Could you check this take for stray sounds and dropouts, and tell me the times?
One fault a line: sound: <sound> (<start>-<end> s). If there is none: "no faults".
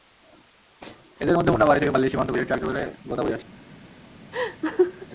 sound: laugh (4.3-5.1 s)